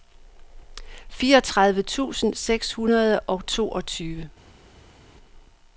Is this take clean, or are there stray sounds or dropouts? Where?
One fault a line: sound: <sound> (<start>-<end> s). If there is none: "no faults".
no faults